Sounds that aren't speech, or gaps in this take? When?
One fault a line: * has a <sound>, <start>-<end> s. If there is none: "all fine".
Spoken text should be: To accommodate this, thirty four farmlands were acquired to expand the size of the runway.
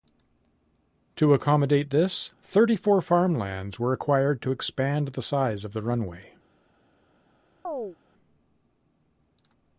* has a chirp, 7.6-8.0 s